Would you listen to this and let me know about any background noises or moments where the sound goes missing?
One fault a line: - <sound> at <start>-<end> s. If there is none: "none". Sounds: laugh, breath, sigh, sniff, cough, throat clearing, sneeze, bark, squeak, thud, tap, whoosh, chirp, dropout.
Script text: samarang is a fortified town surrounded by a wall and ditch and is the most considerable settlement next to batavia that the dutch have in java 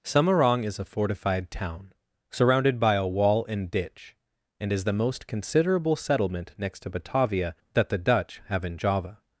none